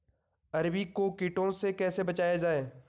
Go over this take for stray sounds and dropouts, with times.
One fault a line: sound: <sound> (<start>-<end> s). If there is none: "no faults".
no faults